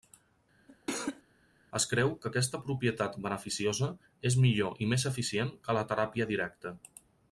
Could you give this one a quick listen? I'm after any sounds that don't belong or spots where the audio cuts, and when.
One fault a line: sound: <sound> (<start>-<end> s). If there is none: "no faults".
sound: cough (0.7-1.2 s)